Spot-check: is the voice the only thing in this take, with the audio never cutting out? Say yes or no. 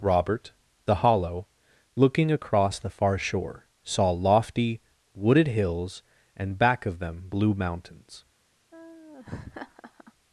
no